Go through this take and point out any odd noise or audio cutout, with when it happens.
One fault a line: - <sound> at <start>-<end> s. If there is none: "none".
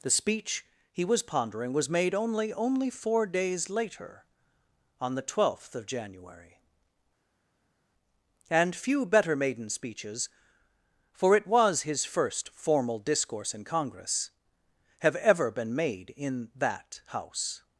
none